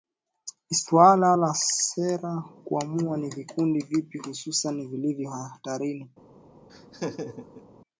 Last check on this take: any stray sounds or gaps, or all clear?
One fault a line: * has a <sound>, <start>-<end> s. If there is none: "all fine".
* has a laugh, 6.7-7.7 s